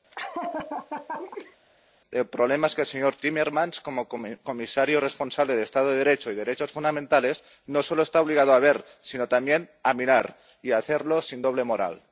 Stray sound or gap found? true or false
true